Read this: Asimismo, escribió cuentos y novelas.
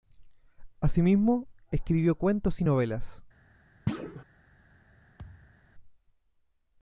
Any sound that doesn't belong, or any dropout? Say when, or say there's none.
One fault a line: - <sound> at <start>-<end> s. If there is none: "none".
- thud at 3.9-4.2 s
- thud at 5.2-5.6 s